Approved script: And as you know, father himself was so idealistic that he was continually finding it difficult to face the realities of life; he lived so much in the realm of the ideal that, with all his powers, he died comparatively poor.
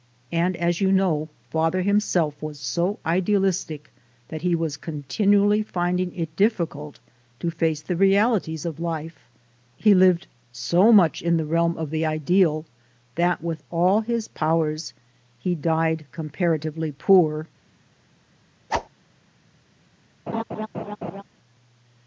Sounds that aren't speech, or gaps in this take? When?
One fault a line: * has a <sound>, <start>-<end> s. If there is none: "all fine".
* has a whoosh, 18.7-18.9 s
* has a laugh, 20.3-21.2 s